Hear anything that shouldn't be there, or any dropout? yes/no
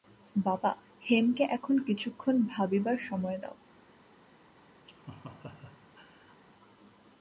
yes